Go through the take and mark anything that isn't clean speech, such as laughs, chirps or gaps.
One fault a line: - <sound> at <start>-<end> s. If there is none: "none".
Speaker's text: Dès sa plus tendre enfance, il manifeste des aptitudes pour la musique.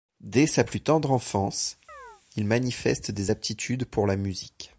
- chirp at 1.9-2.2 s